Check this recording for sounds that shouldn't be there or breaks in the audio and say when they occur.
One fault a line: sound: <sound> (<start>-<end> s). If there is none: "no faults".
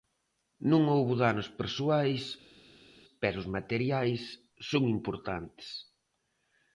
no faults